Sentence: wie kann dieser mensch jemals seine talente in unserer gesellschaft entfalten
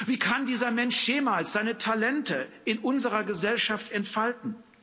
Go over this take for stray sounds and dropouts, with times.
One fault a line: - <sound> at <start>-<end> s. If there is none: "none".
none